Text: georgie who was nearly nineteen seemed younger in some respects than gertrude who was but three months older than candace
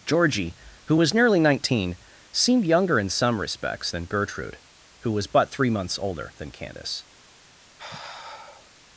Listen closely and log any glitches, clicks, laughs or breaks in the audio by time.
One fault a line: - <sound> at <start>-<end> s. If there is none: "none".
- sigh at 7.8-8.7 s